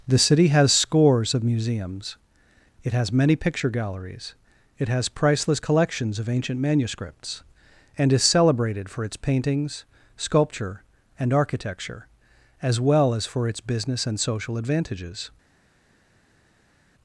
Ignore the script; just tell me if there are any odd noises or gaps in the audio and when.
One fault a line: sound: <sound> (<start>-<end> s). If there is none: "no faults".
no faults